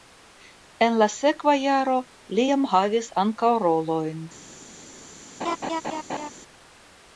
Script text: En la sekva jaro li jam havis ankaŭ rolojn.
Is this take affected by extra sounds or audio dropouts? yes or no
yes